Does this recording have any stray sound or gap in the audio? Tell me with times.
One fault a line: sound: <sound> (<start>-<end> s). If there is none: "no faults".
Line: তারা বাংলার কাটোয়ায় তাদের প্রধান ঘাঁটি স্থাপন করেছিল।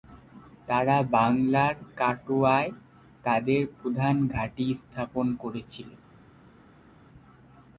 no faults